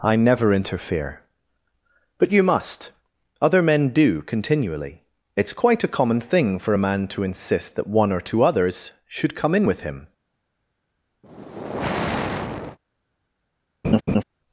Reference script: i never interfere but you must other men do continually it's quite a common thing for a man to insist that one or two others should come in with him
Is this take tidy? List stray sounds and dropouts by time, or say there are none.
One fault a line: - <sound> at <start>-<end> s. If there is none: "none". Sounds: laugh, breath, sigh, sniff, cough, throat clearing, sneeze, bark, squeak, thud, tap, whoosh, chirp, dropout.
- sigh at 11.2-12.8 s
- laugh at 13.8-14.2 s